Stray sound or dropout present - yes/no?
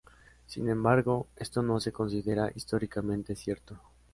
no